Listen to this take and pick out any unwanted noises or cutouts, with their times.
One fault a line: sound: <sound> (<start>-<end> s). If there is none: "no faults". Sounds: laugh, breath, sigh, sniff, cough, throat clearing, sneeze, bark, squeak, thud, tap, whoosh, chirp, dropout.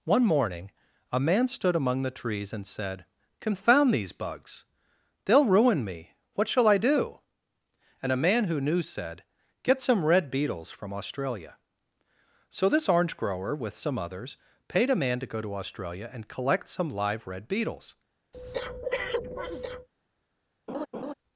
sound: breath (18.3-19.9 s)
sound: laugh (20.7-21.1 s)